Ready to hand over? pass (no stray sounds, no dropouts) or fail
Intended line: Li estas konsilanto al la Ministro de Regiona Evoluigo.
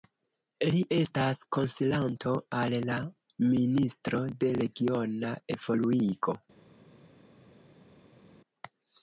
pass